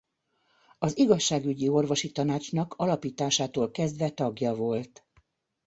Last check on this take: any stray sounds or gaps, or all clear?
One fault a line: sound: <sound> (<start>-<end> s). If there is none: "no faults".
no faults